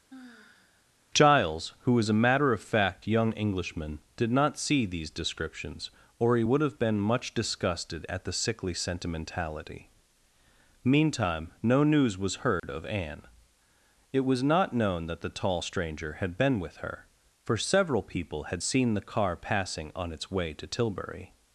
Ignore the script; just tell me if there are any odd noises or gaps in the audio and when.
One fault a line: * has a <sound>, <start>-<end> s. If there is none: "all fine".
* has a sigh, 0.1-0.9 s
* has a dropout, 12.6-12.6 s